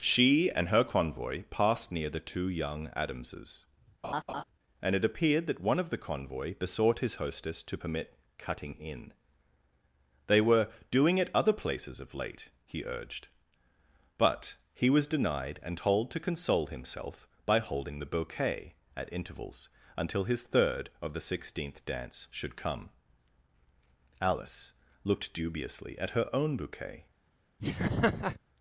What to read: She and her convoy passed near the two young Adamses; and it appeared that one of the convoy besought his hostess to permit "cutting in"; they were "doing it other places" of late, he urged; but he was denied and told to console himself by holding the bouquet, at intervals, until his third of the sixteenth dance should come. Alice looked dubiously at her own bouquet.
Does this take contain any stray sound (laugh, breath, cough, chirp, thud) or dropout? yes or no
yes